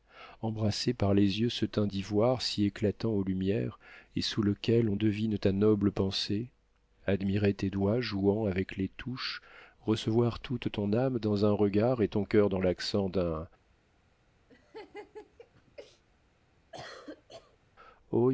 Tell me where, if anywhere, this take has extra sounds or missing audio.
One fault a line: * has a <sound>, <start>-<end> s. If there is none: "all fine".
* has a laugh, 14.5-16.0 s
* has a cough, 16.7-17.6 s